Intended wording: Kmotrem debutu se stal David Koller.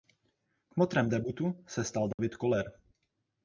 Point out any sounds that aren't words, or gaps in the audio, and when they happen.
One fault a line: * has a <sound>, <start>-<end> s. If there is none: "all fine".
* has a dropout, 2.1-2.2 s